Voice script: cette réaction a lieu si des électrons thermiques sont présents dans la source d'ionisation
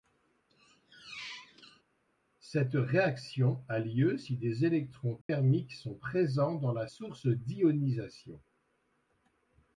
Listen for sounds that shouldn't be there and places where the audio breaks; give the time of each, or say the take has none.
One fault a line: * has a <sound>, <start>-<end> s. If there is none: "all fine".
* has a squeak, 0.5-1.8 s
* has a dropout, 5.2-5.3 s